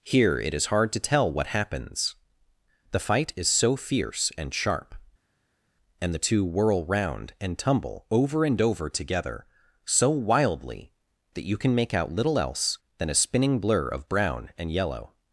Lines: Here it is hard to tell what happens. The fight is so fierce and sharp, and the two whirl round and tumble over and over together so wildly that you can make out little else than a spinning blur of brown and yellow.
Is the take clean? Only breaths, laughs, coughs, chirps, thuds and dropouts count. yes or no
yes